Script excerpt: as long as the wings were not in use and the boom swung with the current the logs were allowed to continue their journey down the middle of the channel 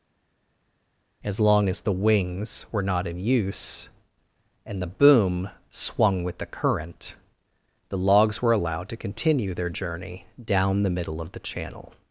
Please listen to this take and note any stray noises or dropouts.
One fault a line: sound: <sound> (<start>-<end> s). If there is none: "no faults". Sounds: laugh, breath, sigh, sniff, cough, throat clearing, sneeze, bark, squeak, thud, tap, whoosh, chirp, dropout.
no faults